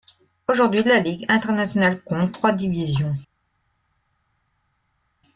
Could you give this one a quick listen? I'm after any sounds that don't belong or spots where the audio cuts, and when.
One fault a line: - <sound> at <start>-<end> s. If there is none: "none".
none